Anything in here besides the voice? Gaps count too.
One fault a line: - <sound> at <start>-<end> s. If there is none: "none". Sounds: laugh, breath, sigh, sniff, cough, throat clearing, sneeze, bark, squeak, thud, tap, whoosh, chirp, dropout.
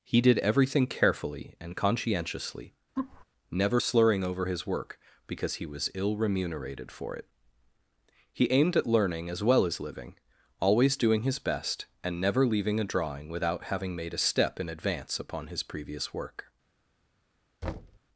- laugh at 3.0-3.2 s
- thud at 17.6-18.0 s